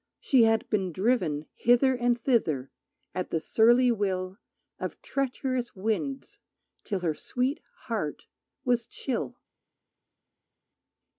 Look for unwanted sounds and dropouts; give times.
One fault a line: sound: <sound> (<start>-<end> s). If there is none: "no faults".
no faults